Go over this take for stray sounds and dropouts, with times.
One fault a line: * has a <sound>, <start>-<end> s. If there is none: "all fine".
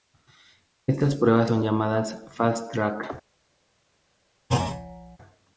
* has a thud, 4.5-5.2 s